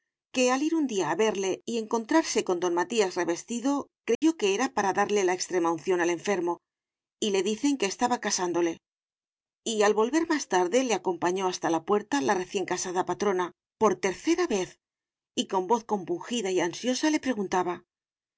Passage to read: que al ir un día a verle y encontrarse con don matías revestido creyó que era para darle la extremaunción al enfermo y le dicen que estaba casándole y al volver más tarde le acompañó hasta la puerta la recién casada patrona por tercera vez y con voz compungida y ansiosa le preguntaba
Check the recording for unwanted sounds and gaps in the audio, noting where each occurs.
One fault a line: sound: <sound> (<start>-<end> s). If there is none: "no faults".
sound: dropout (4.1-4.2 s)